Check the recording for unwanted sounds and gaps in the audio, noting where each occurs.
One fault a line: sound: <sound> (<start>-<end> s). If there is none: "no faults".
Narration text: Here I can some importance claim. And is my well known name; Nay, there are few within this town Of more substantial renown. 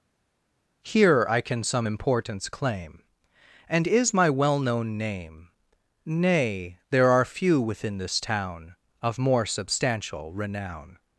no faults